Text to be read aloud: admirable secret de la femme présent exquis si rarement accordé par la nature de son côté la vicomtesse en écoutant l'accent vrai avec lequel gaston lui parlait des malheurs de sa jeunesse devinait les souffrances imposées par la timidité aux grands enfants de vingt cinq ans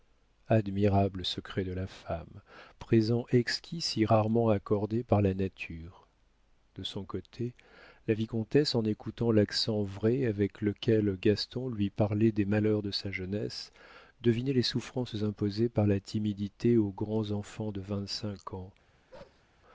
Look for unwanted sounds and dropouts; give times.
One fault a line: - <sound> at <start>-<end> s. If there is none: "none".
- bark at 19.1-19.4 s